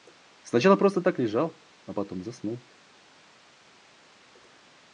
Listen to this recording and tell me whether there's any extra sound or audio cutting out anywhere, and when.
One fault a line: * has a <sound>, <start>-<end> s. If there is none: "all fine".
all fine